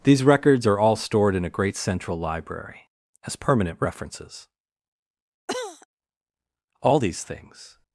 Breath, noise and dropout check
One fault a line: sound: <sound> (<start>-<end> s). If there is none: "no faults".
sound: cough (5.5-5.9 s)